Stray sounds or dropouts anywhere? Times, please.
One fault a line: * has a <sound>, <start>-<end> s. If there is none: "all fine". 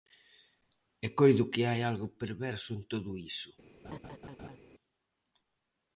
* has a laugh, 3.8-4.6 s